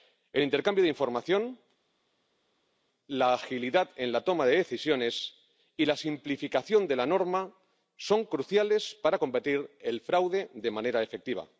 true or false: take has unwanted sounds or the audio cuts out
false